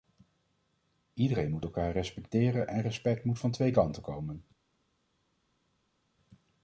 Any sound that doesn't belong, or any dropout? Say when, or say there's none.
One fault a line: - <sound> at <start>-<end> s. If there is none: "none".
none